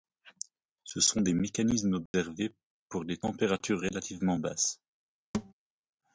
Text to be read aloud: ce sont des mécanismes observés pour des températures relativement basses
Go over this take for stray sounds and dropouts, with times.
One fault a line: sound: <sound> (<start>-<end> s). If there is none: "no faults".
sound: dropout (2.1-2.1 s)
sound: thud (5.3-5.5 s)